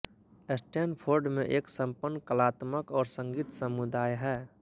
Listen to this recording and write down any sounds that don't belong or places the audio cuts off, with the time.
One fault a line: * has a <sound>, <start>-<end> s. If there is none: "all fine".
all fine